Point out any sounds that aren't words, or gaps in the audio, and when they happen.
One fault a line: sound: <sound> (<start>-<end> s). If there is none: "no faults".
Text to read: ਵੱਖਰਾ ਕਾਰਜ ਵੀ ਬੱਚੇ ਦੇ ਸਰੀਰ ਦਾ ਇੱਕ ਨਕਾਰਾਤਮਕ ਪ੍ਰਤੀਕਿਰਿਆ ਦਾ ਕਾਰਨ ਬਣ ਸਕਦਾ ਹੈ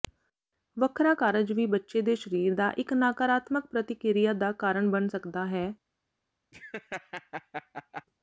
sound: laugh (6.5-8.0 s)